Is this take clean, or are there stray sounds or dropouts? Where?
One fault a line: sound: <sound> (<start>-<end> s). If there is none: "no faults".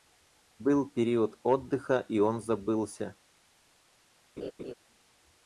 sound: laugh (4.4-4.7 s)